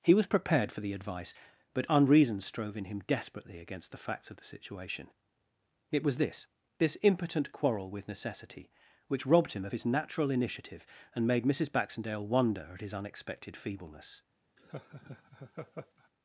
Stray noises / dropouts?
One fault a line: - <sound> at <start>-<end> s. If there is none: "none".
- laugh at 14.6-16.1 s